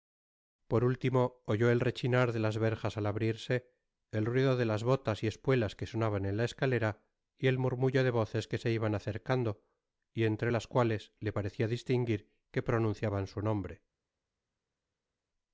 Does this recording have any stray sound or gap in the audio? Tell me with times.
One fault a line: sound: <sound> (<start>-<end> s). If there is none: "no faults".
no faults